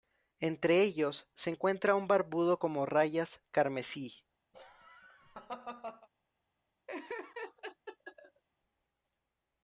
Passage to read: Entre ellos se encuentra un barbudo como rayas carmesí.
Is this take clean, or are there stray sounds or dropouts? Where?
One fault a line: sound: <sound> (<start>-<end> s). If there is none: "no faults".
sound: laugh (4.5-6.1 s)
sound: laugh (6.9-8.4 s)